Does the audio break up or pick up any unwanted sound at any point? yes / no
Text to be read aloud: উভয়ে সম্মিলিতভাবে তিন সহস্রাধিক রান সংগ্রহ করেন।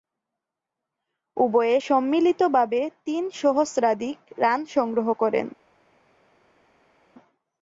no